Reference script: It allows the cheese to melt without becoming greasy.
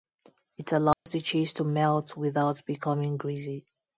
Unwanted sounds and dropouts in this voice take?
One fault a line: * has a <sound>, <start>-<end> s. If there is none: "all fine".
* has a dropout, 0.9-1.1 s